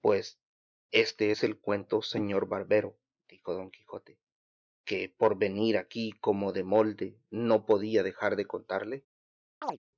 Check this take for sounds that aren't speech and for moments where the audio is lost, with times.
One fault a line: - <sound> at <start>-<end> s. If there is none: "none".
- chirp at 9.6-9.8 s